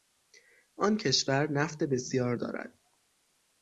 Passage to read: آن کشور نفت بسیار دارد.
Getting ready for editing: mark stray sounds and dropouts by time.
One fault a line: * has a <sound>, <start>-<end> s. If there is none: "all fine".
all fine